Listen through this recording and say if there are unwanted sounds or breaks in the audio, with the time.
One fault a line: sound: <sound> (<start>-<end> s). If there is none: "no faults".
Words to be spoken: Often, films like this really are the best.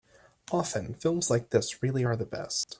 sound: dropout (2.6-2.7 s)